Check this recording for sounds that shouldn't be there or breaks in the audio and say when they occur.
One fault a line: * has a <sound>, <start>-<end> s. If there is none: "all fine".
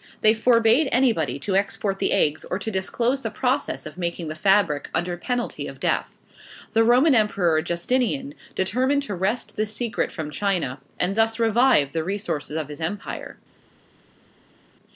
all fine